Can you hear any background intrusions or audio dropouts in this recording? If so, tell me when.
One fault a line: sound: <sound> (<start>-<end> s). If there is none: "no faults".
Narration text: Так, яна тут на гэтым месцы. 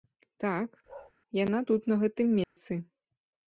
sound: bark (0.9-1.1 s)
sound: dropout (2.4-2.6 s)